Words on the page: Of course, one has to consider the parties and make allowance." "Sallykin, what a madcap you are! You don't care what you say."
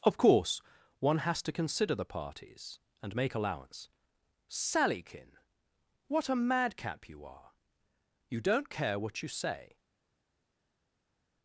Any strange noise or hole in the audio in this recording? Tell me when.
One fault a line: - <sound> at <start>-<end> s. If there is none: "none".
none